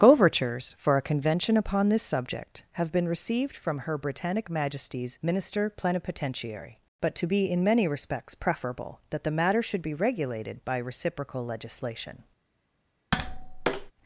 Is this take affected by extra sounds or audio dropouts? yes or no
yes